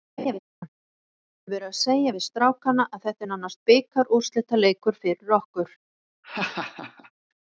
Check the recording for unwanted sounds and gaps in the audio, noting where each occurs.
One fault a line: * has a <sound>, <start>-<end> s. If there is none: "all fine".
* has a laugh, 0.2-0.4 s
* has a laugh, 6.2-7.1 s